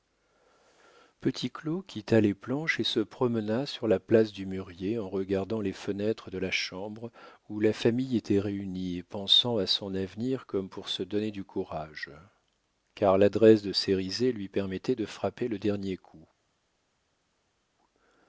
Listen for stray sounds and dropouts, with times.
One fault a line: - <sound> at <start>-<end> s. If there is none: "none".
none